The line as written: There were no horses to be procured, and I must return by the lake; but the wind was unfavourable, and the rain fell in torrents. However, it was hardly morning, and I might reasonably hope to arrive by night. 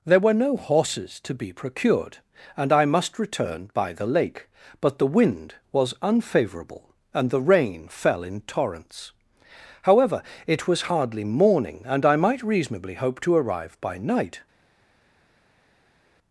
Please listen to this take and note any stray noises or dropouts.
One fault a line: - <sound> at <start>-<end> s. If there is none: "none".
none